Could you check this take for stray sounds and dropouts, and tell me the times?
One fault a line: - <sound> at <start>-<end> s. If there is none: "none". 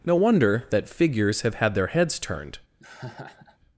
- laugh at 2.8-3.6 s